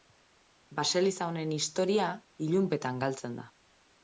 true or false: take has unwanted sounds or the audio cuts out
false